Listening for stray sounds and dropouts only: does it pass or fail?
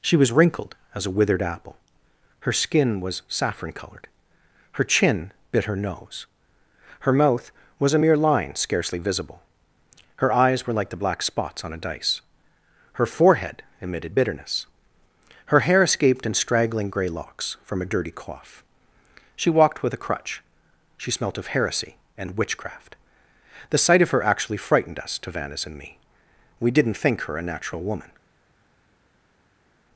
pass